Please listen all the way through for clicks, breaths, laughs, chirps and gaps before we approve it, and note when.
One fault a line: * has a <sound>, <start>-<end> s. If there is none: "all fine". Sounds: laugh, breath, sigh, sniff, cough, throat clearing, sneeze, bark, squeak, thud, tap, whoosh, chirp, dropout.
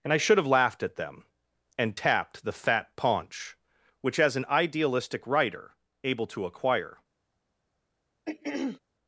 * has a throat clearing, 8.3-8.8 s